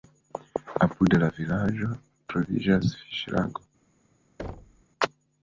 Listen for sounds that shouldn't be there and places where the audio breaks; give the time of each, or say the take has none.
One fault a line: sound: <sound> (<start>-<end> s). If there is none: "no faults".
sound: thud (4.4-4.8 s)